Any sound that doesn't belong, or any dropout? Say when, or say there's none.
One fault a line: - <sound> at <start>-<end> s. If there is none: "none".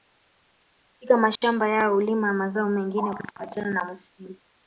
- dropout at 1.4-1.4 s